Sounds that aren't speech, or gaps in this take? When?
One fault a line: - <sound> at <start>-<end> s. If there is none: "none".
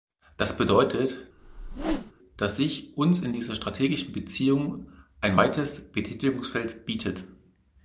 - whoosh at 1.4-2.1 s